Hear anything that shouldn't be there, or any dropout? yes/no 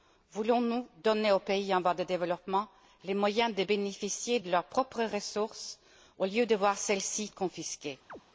yes